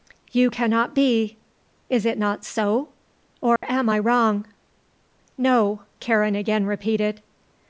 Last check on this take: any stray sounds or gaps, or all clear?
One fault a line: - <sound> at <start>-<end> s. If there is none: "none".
- dropout at 3.6-3.6 s